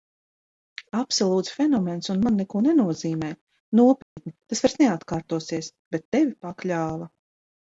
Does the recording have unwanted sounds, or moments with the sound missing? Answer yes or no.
yes